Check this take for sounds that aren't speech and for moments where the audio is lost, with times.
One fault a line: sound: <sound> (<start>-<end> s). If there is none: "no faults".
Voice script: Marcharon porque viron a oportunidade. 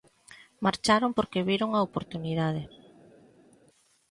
no faults